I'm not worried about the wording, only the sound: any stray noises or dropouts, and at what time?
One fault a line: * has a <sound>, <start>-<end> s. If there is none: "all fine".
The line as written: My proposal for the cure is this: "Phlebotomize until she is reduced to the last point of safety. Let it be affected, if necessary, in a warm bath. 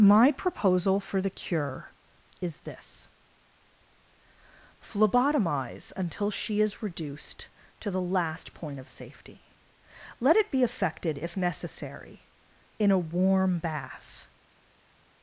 all fine